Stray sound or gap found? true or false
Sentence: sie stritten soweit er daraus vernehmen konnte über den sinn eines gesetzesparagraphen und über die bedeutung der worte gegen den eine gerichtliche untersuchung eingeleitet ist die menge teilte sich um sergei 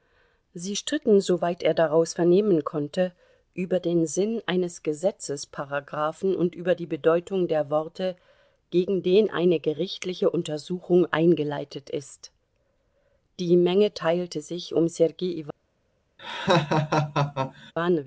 true